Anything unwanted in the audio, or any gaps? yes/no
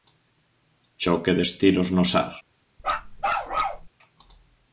yes